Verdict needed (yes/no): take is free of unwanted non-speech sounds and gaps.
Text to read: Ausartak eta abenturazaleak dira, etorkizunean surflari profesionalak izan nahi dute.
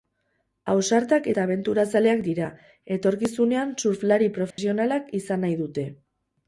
no